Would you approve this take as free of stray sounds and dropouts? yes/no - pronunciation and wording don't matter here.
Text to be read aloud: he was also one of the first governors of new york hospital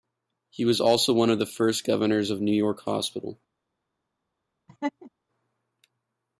no